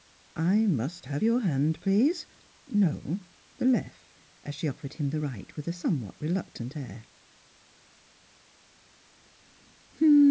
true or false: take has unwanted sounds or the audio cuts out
false